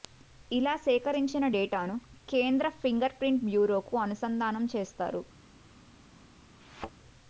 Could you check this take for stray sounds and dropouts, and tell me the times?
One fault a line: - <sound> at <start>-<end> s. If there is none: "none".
- thud at 6.6-6.9 s